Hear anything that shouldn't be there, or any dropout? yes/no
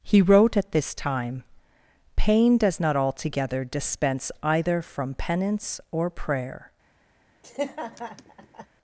yes